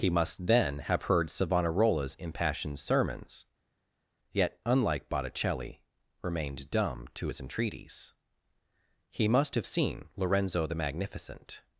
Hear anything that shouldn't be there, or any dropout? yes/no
no